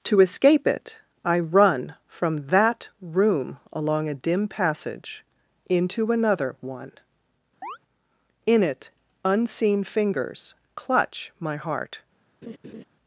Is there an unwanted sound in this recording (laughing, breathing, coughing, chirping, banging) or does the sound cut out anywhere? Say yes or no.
yes